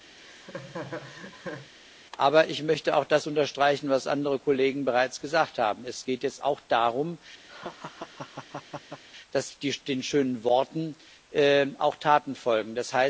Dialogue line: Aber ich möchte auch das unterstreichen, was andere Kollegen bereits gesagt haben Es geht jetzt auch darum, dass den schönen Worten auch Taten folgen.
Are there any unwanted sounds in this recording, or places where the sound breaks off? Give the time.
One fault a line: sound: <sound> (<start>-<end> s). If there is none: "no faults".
sound: laugh (0.2-1.7 s)
sound: laugh (7.5-9.0 s)